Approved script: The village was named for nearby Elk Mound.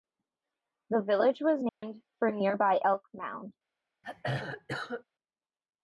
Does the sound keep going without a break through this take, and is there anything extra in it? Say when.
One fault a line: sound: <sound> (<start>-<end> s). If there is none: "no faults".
sound: dropout (1.7-1.8 s)
sound: throat clearing (4.0-5.0 s)